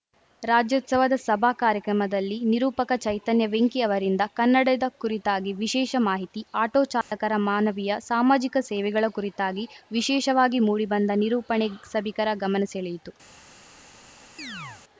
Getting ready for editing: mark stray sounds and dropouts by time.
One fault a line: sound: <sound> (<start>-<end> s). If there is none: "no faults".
sound: dropout (7.0-7.1 s)
sound: chirp (14.4-14.8 s)